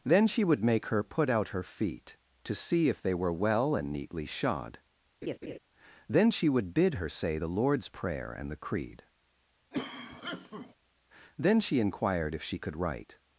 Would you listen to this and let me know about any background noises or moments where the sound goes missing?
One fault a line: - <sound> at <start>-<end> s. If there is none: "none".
- laugh at 5.2-5.6 s
- cough at 9.7-10.7 s